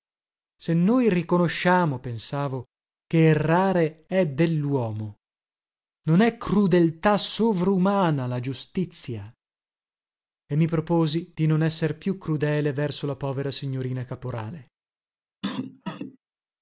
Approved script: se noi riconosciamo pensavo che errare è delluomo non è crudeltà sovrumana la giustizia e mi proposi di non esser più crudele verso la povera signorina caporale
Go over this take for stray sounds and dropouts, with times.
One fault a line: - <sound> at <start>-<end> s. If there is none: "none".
- cough at 15.4-16.2 s